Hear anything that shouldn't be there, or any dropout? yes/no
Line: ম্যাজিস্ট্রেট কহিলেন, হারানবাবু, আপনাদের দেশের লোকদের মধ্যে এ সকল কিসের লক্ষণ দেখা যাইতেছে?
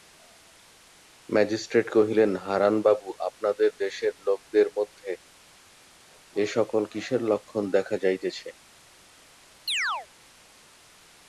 yes